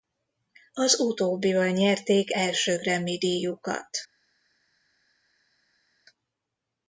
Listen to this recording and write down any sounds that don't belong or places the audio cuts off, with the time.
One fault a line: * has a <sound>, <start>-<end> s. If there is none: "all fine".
all fine